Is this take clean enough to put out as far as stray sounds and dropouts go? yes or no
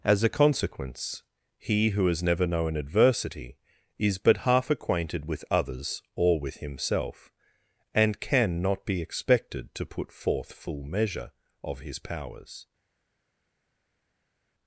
yes